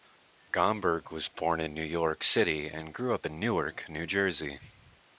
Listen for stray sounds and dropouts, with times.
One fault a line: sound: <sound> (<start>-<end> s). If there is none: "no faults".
no faults